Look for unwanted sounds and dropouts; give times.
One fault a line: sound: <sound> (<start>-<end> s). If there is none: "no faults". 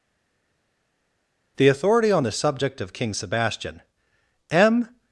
no faults